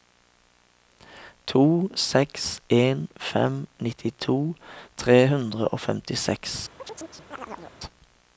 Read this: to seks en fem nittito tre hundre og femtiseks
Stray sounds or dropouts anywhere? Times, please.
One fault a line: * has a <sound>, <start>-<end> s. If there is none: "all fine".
* has a chirp, 6.8-7.8 s